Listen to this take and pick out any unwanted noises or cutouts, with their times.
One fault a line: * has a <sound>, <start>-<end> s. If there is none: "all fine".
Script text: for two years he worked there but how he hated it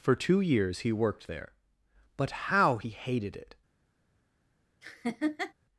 * has a laugh, 4.8-5.5 s